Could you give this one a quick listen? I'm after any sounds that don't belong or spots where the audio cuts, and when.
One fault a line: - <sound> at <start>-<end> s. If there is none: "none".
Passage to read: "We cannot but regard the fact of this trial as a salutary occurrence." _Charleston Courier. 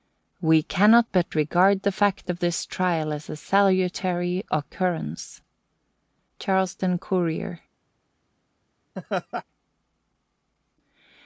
- laugh at 9.0-9.4 s